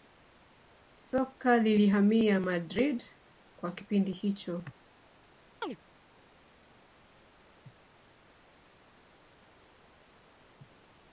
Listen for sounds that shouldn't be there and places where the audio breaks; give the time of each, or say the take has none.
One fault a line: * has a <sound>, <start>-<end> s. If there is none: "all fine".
* has a chirp, 5.6-5.8 s